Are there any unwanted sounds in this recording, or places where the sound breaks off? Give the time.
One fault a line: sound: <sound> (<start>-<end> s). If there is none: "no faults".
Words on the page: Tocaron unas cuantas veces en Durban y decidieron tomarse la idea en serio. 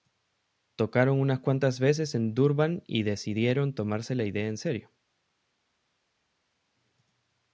no faults